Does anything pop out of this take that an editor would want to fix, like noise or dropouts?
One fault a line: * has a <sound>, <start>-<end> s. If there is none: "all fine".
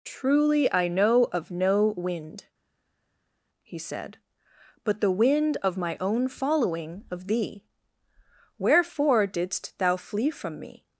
all fine